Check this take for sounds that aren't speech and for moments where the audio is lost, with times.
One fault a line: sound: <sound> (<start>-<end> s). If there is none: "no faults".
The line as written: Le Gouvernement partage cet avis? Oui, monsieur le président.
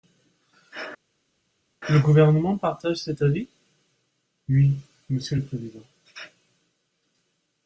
no faults